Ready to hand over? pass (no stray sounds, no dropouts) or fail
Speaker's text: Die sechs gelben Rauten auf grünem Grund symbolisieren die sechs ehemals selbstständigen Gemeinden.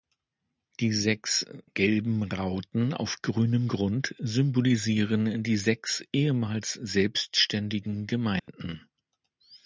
fail